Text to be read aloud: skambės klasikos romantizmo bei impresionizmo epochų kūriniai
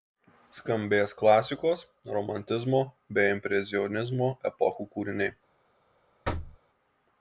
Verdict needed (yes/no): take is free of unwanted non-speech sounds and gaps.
no